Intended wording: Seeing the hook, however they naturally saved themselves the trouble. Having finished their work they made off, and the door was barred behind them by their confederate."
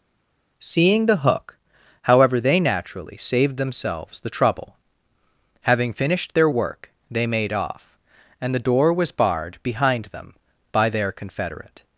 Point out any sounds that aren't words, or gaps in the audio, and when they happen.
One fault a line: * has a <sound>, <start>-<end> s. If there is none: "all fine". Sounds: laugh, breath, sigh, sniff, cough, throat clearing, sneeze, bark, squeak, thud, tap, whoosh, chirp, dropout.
all fine